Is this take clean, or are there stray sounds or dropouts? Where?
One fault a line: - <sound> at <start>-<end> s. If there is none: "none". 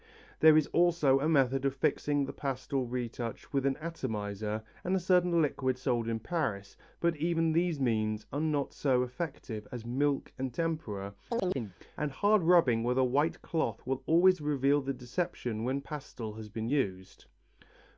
- chirp at 11.3-11.7 s